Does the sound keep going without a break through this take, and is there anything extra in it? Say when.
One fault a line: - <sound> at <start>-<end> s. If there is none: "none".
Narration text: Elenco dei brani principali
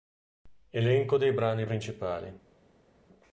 none